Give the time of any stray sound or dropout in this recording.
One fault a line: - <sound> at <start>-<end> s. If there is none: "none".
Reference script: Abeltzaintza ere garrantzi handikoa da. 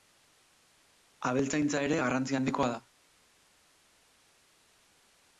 none